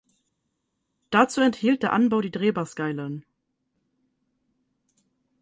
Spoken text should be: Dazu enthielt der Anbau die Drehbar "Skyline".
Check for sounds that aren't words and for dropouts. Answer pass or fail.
pass